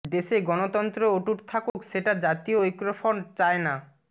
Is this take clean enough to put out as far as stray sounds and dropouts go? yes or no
no